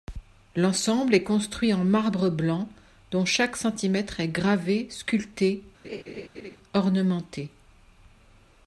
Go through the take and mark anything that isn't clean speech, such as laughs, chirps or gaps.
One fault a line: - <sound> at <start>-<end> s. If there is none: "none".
- laugh at 5.8-6.6 s